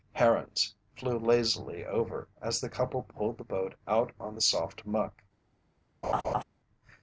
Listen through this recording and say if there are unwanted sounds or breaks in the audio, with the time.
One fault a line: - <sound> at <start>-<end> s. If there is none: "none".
- laugh at 6.0-6.4 s